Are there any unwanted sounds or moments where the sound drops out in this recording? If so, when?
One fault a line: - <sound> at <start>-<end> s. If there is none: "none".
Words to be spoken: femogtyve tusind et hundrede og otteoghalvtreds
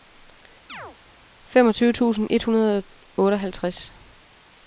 - chirp at 0.7-1.0 s